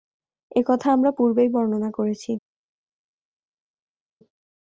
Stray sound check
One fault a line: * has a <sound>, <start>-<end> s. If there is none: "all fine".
all fine